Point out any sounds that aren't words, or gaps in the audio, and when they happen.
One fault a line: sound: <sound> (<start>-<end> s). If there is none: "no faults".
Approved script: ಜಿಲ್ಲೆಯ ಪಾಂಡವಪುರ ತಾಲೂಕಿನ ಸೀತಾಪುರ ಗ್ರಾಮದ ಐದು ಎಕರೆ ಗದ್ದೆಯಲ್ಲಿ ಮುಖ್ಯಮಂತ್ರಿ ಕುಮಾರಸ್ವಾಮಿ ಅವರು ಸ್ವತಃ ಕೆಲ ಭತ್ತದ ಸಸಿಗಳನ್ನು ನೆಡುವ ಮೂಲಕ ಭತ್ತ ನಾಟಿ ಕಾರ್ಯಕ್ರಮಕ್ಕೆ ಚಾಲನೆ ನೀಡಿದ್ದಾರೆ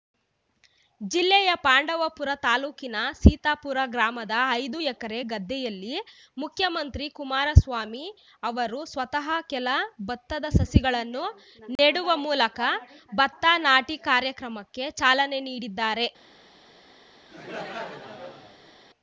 sound: dropout (11.8-11.8 s)
sound: laugh (17.3-18.7 s)